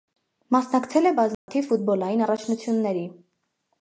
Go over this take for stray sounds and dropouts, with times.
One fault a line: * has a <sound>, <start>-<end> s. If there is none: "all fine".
* has a dropout, 1.3-1.5 s